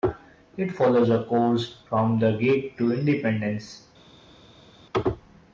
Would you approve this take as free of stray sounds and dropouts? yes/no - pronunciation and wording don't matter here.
yes